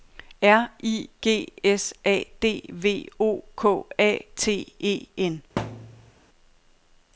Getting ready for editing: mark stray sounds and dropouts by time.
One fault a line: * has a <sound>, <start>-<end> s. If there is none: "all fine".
* has a thud, 5.6-6.1 s